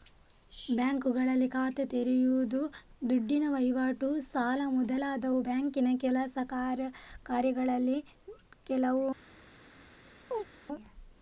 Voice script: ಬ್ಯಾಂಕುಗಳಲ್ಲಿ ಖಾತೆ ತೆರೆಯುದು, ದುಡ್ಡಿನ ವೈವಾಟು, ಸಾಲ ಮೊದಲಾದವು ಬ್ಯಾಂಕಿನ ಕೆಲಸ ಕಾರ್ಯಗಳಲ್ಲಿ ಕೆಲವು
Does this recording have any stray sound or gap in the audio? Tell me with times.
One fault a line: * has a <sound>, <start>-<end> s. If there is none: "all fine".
* has a chirp, 10.3-10.5 s